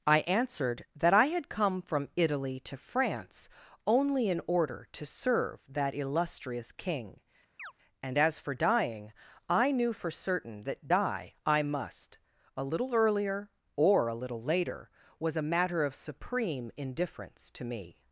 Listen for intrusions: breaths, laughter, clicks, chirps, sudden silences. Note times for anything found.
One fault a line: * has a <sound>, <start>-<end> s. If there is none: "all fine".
* has a chirp, 7.6-7.7 s